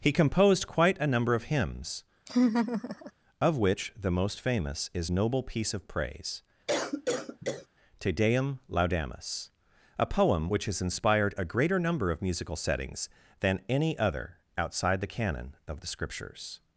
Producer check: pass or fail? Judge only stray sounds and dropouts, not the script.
fail